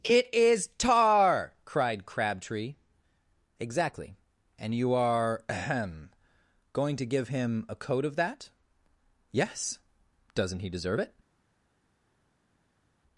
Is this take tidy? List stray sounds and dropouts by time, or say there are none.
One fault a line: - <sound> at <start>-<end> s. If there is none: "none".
none